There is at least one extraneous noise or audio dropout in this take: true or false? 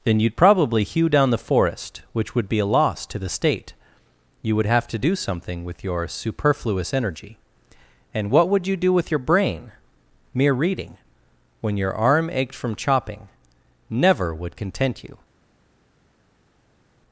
false